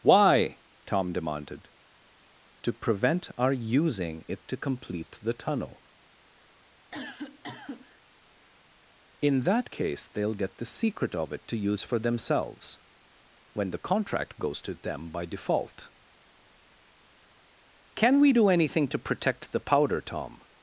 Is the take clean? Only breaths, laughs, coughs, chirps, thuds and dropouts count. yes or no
no